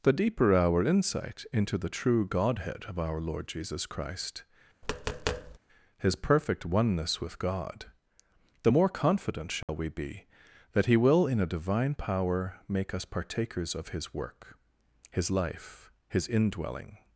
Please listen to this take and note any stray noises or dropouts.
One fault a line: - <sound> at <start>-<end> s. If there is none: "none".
- tap at 4.8-5.6 s
- dropout at 9.6-9.7 s